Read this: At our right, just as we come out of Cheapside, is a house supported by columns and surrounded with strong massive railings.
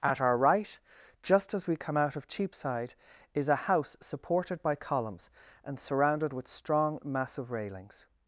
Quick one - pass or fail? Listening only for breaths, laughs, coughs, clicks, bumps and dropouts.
pass